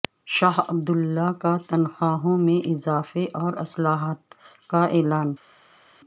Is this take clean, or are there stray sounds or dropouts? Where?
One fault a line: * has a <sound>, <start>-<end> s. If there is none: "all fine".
all fine